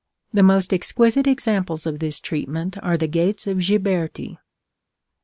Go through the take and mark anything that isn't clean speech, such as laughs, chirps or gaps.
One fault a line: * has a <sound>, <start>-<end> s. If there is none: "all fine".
all fine